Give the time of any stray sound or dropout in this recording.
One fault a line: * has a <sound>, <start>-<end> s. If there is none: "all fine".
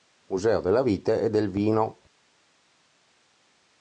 all fine